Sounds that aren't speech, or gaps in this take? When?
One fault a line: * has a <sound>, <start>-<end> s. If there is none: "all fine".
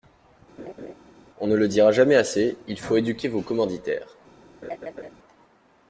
* has a laugh, 0.6-0.9 s
* has a laugh, 4.6-5.1 s